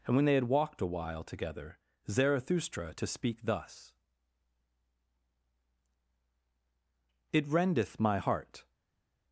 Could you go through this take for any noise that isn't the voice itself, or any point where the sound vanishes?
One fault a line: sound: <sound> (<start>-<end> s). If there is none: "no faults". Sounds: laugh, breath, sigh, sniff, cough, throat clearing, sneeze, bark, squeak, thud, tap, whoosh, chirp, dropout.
no faults